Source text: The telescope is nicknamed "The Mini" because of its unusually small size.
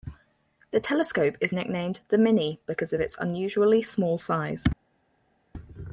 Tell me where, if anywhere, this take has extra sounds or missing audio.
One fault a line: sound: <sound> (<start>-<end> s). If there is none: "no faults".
no faults